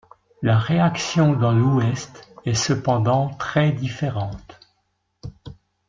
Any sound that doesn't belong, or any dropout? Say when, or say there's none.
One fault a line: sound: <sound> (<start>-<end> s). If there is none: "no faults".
no faults